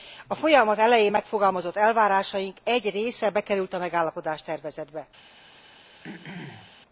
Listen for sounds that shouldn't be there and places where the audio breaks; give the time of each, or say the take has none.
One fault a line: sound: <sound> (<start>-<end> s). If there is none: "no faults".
sound: throat clearing (6.0-6.8 s)